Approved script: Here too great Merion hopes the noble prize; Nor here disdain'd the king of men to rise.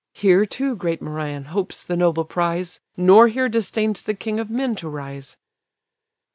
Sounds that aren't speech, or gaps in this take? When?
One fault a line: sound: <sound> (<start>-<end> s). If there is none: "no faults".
no faults